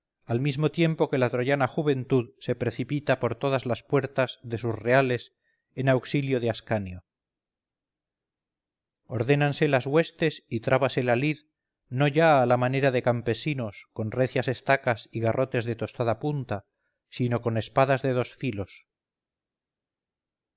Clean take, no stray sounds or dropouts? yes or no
yes